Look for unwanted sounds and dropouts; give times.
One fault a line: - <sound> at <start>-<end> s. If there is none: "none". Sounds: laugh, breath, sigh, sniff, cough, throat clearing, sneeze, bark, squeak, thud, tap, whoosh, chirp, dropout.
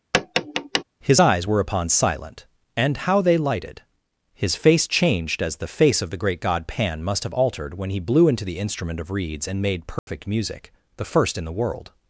- tap at 0.1-0.8 s
- dropout at 10.0-10.1 s